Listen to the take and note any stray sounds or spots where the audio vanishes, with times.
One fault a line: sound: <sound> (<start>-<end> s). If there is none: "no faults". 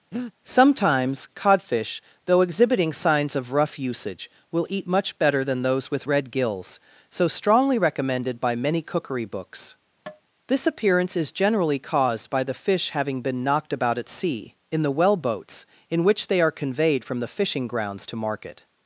sound: breath (0.1-0.3 s)
sound: tap (10.1-10.2 s)